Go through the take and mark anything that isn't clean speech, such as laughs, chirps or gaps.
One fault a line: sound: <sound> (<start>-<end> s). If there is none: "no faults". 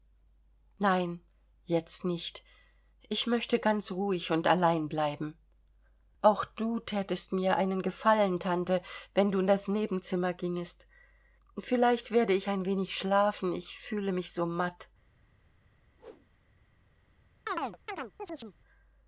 sound: whoosh (16.0-16.3 s)
sound: chirp (17.5-18.6 s)